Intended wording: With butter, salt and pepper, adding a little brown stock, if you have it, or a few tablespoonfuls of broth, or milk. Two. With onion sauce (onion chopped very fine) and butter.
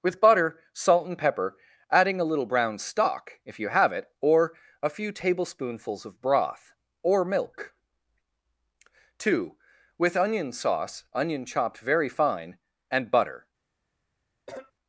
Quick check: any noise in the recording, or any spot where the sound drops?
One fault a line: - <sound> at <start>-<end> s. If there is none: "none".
- cough at 14.5-14.7 s